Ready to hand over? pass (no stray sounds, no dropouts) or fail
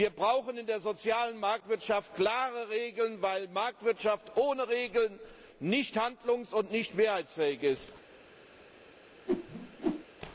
fail